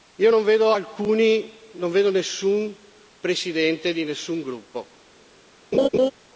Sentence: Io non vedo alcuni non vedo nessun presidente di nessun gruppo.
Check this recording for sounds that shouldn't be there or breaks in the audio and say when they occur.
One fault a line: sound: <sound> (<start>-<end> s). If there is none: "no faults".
sound: laugh (5.7-6.1 s)